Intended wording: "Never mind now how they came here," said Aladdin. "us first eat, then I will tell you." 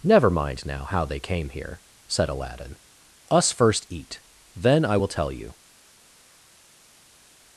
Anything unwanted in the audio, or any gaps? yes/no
no